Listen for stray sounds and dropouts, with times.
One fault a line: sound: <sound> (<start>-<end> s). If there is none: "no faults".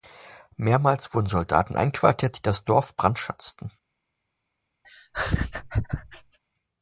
sound: laugh (4.8-6.4 s)